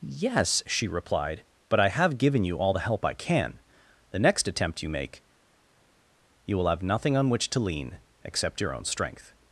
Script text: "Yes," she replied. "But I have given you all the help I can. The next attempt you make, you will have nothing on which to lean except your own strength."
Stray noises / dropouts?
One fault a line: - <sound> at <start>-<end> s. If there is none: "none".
none